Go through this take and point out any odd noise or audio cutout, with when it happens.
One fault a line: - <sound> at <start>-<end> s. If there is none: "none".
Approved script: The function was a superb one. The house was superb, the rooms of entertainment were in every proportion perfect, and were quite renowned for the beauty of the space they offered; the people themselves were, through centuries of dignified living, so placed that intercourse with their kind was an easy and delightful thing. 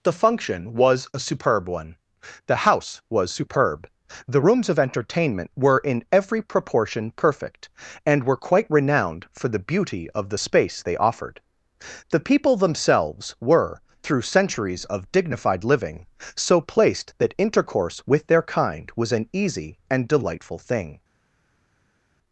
none